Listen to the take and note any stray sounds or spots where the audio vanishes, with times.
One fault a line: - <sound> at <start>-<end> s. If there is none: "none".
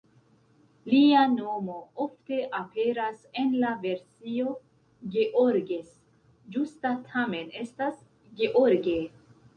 none